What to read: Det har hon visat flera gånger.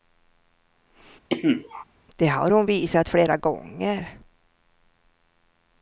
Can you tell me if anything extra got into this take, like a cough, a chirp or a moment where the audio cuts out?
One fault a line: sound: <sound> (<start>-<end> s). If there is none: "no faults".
sound: cough (1.3-1.8 s)